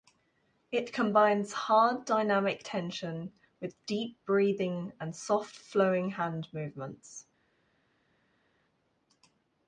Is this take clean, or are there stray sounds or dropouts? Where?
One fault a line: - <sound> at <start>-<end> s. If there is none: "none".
none